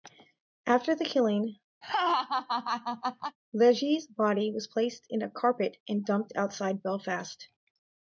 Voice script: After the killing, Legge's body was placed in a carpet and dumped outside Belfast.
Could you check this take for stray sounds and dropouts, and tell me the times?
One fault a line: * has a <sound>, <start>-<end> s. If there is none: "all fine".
* has a laugh, 1.8-3.4 s